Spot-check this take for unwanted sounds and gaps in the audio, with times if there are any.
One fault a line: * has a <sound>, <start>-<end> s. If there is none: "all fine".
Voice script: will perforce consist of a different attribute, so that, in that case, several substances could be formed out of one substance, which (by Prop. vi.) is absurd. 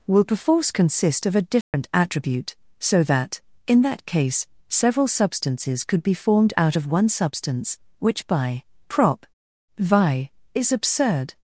* has a dropout, 1.6-1.7 s